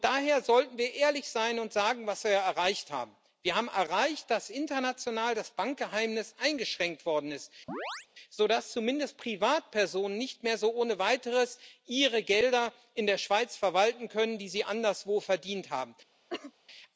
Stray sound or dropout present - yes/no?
yes